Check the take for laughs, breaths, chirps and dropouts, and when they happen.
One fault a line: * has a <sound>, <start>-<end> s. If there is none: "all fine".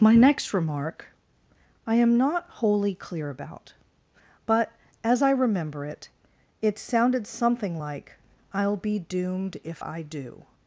all fine